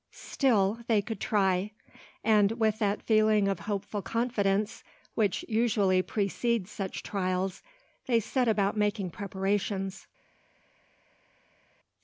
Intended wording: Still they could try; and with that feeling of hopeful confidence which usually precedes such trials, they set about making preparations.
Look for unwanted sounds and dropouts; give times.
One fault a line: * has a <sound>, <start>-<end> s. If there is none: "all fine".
all fine